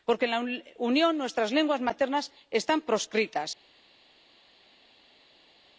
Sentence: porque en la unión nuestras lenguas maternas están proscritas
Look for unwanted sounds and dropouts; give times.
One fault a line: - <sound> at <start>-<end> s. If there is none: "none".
none